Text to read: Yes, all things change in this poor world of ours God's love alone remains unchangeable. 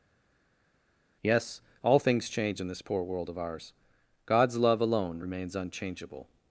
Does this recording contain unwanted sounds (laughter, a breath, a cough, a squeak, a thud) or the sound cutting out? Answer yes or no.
no